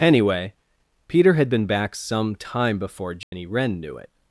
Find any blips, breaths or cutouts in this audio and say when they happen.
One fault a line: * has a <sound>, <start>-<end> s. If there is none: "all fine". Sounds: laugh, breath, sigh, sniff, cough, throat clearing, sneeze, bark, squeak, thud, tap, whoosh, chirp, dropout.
* has a dropout, 3.2-3.3 s